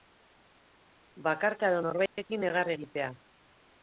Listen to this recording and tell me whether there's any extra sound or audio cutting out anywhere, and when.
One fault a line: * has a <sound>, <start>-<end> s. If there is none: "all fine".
* has a dropout, 2.1-2.2 s